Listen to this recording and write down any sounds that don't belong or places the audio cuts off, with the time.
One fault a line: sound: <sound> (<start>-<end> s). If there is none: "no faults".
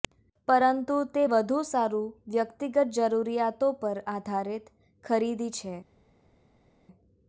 no faults